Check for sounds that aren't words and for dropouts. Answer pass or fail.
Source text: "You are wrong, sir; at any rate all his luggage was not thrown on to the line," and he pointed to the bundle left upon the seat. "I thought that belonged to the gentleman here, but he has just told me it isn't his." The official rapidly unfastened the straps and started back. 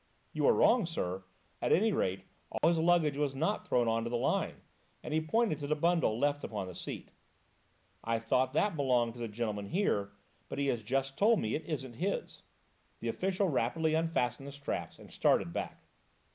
fail